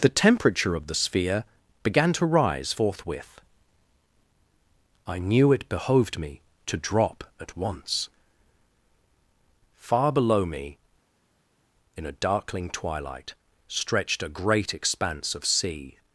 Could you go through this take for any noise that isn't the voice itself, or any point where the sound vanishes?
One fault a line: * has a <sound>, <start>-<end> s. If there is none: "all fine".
all fine